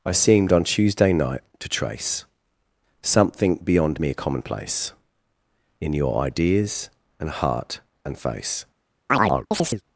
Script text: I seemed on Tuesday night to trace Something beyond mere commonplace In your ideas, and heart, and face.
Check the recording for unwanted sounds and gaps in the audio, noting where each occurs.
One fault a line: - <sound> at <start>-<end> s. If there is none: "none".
- chirp at 9.1-9.8 s